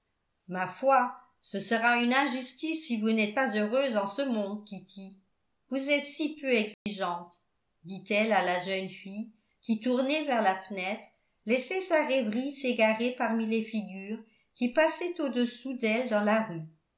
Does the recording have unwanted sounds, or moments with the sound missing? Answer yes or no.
yes